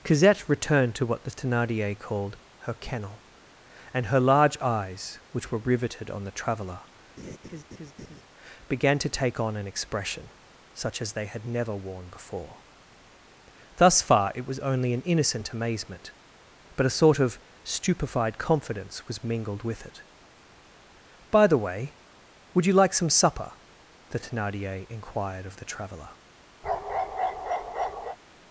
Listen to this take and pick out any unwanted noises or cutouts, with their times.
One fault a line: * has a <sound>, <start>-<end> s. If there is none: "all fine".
* has a laugh, 7.2-8.2 s
* has a bark, 26.6-28.2 s